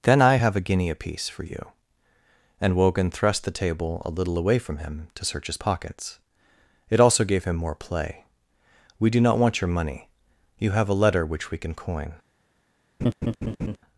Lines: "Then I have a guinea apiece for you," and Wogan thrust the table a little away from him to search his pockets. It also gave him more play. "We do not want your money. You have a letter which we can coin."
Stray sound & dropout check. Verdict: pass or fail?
fail